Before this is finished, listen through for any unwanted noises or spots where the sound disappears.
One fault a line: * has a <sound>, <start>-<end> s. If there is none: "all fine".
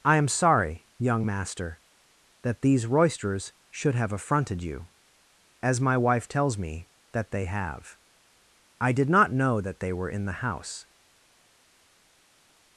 all fine